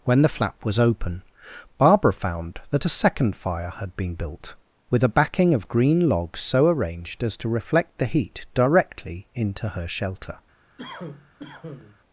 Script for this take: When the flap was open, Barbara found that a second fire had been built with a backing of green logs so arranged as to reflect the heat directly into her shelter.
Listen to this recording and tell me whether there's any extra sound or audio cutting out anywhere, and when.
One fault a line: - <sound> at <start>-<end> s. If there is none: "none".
- cough at 10.8-12.0 s